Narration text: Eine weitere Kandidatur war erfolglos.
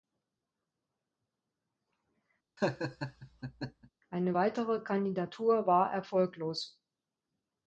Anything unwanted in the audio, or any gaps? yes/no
yes